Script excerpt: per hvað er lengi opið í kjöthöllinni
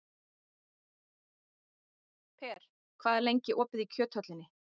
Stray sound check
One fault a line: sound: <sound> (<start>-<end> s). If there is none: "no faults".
no faults